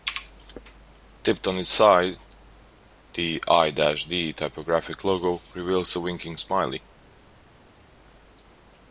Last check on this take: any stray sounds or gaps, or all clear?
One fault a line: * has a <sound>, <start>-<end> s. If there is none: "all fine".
all fine